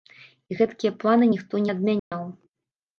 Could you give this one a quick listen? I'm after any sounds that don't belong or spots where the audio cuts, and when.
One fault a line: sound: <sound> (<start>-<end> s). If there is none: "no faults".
sound: dropout (2.0-2.1 s)